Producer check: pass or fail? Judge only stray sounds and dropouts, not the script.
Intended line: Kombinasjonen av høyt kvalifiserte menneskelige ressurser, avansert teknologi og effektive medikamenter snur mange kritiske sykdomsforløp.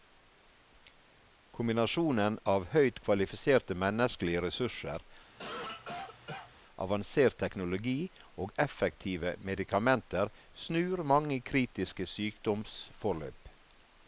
fail